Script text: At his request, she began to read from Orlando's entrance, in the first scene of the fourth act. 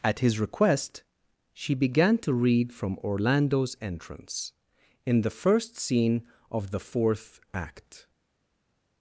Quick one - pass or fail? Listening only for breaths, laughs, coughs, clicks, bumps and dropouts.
pass